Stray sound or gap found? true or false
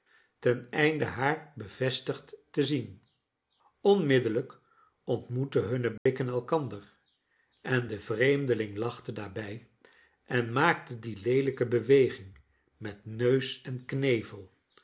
true